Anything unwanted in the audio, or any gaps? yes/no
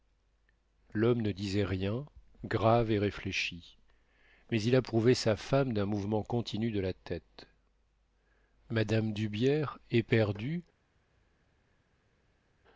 no